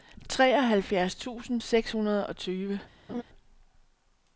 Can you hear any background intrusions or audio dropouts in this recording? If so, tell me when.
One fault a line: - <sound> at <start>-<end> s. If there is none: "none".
- laugh at 3.1-3.2 s